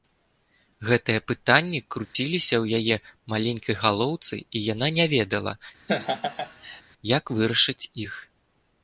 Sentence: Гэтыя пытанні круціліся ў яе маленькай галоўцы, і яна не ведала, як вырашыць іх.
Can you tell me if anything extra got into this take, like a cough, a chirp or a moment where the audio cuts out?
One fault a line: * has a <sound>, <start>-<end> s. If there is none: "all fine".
* has a dropout, 2.1-2.1 s
* has a laugh, 5.9-6.8 s